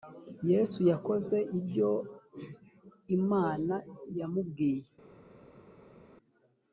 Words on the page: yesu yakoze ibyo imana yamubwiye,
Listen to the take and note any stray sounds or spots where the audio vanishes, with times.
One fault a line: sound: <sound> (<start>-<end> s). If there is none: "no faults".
no faults